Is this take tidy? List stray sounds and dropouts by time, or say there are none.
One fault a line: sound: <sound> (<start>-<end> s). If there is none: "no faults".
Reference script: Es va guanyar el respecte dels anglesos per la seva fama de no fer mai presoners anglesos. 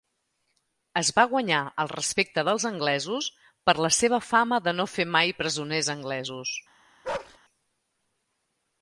sound: bark (7.0-7.4 s)